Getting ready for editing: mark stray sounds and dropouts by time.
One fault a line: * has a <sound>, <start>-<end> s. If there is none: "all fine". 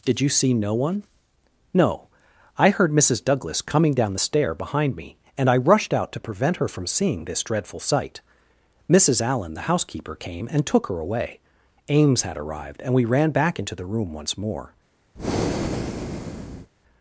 * has a breath, 15.2-16.7 s